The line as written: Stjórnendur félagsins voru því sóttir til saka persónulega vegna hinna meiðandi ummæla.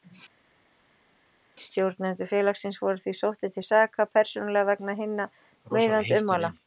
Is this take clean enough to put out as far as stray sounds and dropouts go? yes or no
yes